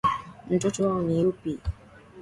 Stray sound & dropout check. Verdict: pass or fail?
pass